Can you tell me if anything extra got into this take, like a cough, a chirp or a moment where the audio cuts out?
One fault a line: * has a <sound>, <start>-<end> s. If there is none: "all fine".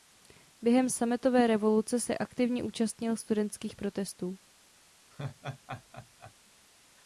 * has a laugh, 5.1-6.3 s